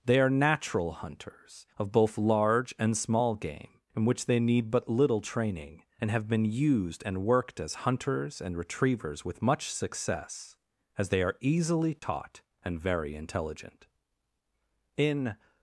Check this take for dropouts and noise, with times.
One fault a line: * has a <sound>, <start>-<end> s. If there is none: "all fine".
* has a dropout, 12.0-12.0 s